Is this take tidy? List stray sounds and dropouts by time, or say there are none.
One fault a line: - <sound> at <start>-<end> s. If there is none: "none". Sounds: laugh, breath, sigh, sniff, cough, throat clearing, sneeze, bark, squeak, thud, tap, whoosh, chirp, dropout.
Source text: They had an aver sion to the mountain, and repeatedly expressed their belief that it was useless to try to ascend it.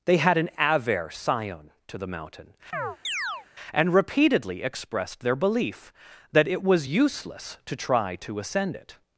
- chirp at 2.7-3.5 s